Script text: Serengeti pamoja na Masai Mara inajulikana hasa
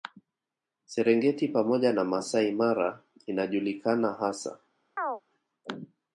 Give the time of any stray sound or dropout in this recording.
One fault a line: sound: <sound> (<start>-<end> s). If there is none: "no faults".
sound: chirp (5.0-5.2 s)